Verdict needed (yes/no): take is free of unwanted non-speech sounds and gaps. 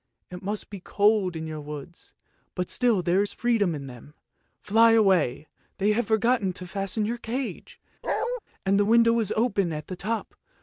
no